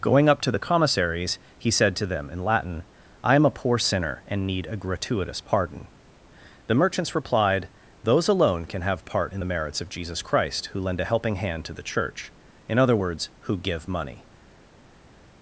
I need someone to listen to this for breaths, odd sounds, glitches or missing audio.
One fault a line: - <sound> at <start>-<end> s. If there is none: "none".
none